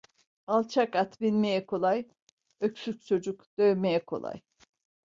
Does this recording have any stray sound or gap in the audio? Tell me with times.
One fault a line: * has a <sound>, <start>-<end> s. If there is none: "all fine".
all fine